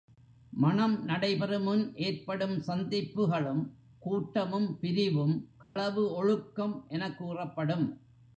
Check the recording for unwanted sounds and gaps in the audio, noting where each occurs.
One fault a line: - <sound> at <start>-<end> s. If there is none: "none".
- dropout at 5.6-5.8 s